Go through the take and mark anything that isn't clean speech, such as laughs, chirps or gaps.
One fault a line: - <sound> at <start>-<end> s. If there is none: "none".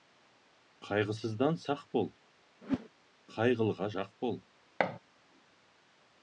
- whoosh at 2.6-2.9 s
- thud at 4.8-5.0 s